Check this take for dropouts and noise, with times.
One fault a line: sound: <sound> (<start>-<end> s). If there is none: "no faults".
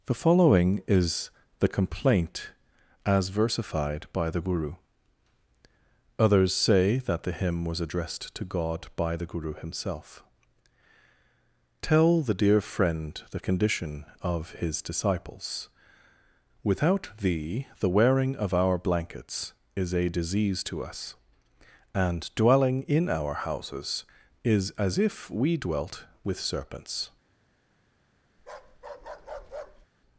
sound: bark (28.4-29.9 s)